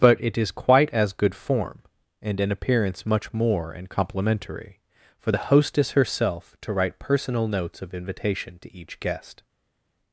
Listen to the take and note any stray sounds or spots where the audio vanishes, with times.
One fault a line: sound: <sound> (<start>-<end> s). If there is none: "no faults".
no faults